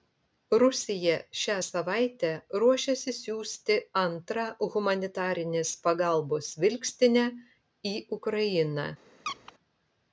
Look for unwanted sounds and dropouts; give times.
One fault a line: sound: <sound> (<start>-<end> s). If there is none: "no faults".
sound: squeak (9.2-9.5 s)